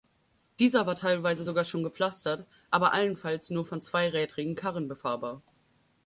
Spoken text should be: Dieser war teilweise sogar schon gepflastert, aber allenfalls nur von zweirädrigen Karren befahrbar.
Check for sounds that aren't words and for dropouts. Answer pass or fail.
pass